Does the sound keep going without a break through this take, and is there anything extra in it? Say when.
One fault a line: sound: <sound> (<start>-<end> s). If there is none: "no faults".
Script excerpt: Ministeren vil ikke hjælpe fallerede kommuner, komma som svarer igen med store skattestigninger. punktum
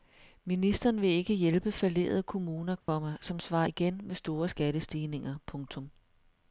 sound: dropout (2.8-2.9 s)